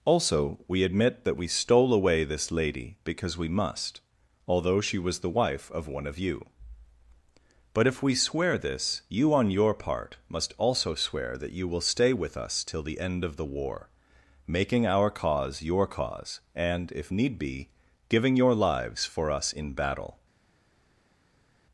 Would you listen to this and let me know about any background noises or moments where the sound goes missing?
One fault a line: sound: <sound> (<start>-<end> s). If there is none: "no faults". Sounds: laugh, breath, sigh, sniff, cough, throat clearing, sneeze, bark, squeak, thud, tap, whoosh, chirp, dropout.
no faults